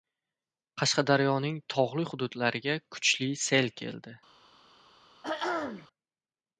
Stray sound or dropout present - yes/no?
yes